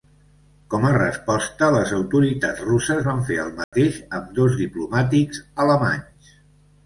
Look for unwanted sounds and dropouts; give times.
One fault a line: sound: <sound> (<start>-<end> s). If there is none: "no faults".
sound: dropout (3.6-3.7 s)